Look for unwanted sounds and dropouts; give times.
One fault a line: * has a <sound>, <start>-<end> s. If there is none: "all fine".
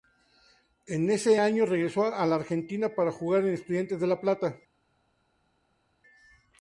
all fine